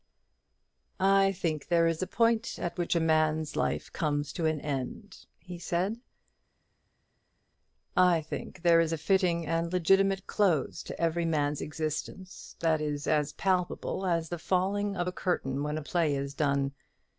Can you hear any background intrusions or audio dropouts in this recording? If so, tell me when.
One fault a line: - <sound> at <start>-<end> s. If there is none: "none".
none